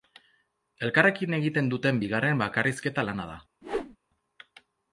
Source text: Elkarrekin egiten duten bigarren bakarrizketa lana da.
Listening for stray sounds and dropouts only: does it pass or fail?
fail